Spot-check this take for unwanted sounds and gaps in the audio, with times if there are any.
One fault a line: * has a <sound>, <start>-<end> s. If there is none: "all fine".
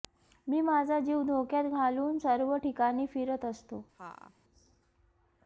* has a laugh, 3.9-4.3 s